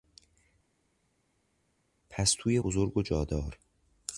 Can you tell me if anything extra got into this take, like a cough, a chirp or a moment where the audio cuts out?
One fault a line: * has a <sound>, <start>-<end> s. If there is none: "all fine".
all fine